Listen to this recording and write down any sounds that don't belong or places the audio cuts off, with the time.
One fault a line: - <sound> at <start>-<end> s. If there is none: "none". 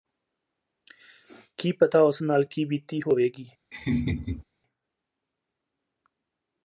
- laugh at 3.7-4.4 s